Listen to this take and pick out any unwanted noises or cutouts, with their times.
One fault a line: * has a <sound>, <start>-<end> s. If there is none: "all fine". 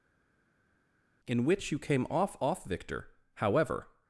all fine